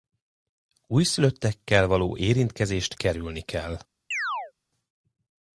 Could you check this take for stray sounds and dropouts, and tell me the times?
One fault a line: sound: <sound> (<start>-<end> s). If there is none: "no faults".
sound: chirp (4.1-4.5 s)